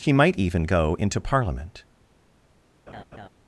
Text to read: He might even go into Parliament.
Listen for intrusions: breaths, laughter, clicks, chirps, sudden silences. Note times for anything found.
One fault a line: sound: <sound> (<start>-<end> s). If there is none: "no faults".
sound: laugh (2.9-3.3 s)